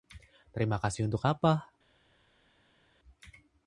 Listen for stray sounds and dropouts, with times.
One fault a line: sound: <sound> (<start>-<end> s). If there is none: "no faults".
no faults